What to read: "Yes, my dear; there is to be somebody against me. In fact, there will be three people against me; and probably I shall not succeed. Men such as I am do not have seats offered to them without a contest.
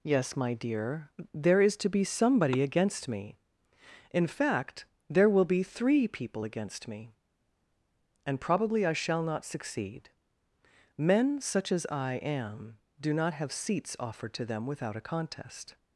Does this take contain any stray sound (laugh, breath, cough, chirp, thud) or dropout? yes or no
no